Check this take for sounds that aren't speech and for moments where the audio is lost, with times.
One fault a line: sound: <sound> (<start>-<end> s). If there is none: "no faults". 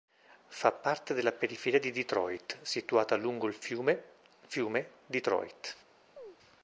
sound: chirp (6.2-6.4 s)